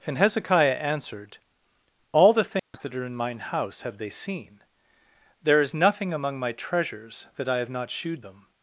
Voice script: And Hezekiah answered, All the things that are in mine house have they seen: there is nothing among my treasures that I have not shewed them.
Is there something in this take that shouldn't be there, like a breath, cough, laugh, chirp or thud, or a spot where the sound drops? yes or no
yes